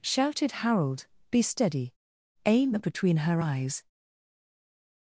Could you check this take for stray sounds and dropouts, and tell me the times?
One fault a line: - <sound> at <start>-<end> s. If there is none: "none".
none